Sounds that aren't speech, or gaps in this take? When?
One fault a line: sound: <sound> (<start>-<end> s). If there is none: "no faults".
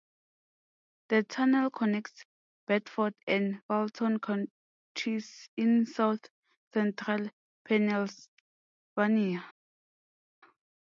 no faults